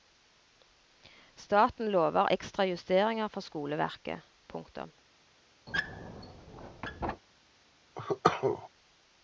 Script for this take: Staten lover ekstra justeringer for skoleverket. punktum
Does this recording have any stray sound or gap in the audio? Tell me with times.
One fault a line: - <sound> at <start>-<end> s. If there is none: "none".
- squeak at 5.7-7.2 s
- cough at 7.9-8.7 s